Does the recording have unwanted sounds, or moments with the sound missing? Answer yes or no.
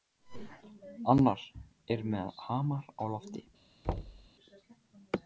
yes